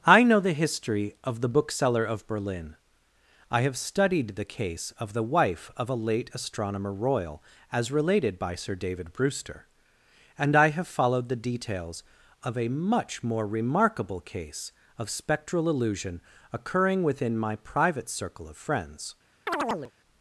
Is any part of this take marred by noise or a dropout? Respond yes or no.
yes